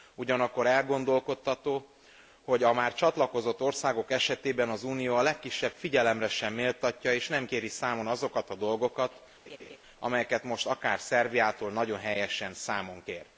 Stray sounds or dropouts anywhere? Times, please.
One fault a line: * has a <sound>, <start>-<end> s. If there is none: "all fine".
* has a laugh, 9.5-9.8 s